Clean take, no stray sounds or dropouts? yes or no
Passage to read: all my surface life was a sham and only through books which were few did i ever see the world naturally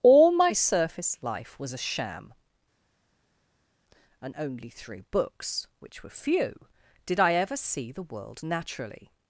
yes